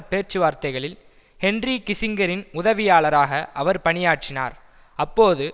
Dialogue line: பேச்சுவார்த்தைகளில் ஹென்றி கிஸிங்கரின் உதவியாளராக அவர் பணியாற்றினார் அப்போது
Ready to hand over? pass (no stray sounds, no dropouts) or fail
pass